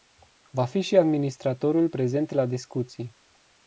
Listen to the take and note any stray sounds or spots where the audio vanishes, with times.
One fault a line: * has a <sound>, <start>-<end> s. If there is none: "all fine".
all fine